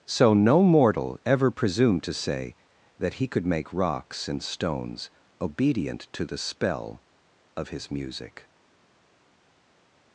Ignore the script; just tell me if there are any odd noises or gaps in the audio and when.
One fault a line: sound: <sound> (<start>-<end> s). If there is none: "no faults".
no faults